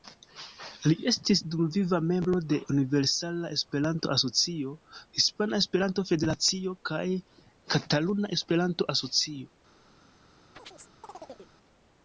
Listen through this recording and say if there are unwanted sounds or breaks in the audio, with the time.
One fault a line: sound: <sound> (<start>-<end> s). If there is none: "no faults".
sound: chirp (10.5-11.5 s)